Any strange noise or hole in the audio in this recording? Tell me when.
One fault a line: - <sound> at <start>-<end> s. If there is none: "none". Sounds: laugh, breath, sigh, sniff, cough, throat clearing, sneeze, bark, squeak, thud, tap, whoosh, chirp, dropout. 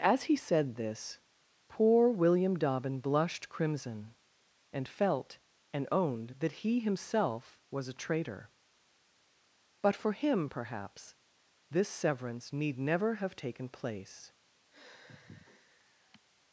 - sigh at 14.7-16.2 s